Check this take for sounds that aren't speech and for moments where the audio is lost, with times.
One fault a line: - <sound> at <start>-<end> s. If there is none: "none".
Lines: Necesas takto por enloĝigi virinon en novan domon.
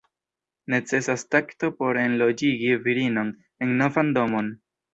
none